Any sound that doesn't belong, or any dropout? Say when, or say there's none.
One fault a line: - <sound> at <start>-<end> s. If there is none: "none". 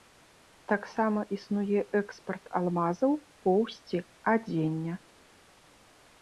none